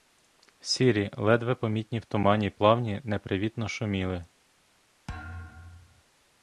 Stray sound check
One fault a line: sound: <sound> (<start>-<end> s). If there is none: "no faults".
sound: thud (5.1-6.0 s)